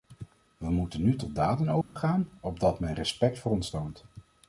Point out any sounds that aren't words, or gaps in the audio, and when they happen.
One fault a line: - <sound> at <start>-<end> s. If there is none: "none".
- dropout at 1.8-2.0 s